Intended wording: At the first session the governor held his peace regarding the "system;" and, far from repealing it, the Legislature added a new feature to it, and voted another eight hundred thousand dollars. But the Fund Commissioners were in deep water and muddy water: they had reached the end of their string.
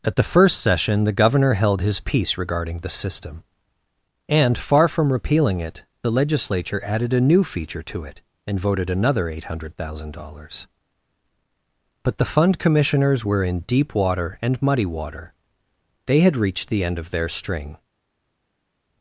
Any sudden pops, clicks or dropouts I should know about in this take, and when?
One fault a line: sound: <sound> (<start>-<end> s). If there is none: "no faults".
no faults